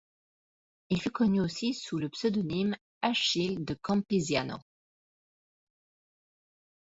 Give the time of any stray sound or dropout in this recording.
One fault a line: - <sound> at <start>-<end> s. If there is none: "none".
none